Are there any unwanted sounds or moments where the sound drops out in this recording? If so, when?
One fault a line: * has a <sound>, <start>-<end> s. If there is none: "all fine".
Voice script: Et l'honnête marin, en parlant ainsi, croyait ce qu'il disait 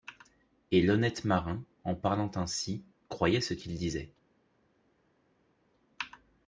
all fine